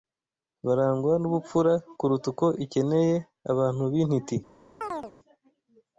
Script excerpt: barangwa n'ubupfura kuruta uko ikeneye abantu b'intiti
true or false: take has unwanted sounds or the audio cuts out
true